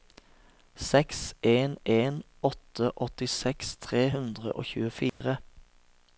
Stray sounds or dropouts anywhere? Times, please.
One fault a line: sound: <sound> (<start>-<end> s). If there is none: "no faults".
sound: dropout (5.1-5.2 s)